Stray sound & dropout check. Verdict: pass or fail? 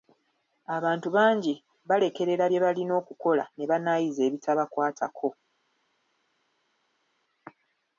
pass